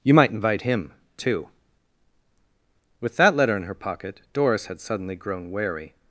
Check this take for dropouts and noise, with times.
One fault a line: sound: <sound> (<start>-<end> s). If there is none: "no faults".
no faults